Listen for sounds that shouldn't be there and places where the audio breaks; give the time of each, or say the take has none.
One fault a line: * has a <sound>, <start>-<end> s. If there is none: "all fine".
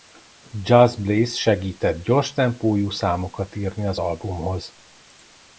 all fine